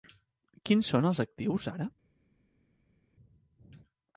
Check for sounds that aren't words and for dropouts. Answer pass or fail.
pass